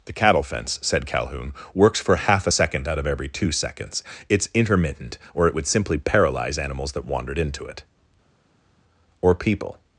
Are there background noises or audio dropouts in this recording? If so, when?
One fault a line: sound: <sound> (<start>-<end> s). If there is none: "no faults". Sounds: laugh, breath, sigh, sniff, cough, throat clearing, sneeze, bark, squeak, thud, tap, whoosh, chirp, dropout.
no faults